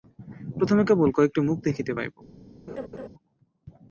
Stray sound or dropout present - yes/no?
yes